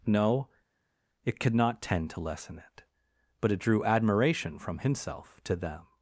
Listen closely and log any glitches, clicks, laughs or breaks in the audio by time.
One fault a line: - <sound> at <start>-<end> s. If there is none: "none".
none